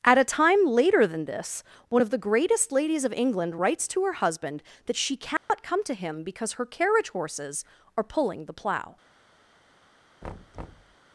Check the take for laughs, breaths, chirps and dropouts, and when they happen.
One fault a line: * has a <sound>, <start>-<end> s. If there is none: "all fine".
* has a dropout, 5.4-5.5 s
* has a thud, 10.2-11.0 s